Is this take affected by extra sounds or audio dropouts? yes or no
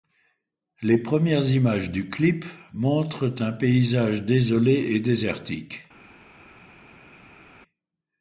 no